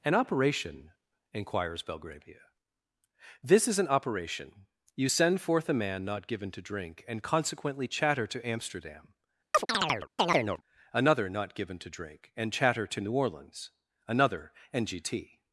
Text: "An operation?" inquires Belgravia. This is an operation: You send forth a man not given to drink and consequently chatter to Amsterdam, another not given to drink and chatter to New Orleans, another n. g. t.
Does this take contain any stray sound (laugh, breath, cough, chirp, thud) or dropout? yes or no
yes